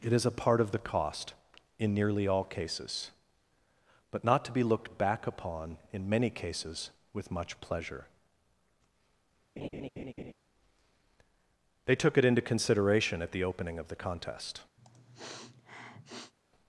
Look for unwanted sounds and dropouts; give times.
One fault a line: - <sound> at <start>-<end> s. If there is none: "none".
- laugh at 9.6-10.3 s
- sniff at 14.8-16.3 s